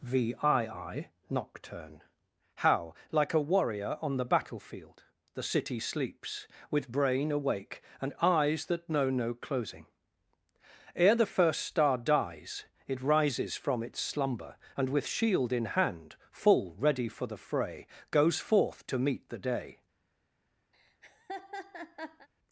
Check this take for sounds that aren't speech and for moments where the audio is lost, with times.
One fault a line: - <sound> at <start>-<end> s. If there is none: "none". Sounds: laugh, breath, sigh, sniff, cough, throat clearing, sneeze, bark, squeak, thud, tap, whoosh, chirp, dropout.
- laugh at 20.7-22.3 s